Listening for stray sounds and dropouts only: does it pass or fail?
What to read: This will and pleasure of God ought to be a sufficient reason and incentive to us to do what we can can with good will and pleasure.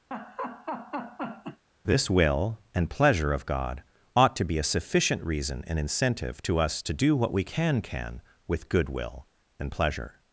fail